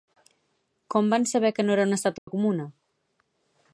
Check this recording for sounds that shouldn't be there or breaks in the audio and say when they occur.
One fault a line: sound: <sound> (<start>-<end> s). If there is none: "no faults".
sound: dropout (2.2-2.3 s)